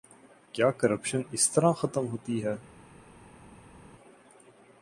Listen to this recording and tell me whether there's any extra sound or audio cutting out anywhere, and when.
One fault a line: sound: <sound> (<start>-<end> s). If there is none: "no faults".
no faults